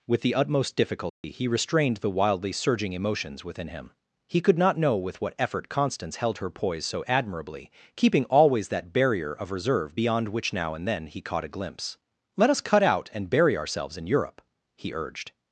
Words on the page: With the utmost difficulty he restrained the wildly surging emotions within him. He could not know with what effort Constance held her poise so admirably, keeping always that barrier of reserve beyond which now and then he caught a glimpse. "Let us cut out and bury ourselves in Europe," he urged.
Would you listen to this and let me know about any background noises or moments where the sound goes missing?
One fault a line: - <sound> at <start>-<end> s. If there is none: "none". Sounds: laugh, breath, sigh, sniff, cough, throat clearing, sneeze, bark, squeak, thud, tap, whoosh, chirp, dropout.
- dropout at 1.1-1.2 s